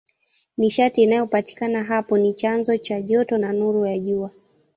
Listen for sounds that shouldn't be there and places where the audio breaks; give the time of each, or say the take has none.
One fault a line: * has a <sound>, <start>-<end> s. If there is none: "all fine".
all fine